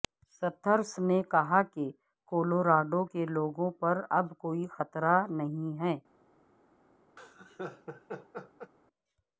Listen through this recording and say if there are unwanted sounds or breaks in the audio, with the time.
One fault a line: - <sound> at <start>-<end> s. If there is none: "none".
- laugh at 7.2-8.7 s